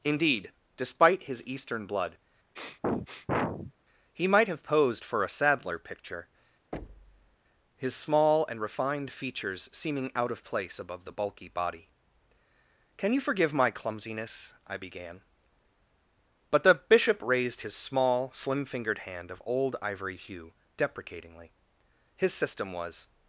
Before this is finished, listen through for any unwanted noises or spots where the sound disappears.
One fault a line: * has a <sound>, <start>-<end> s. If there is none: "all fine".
* has a sniff, 2.6-3.7 s
* has a thud, 6.7-7.4 s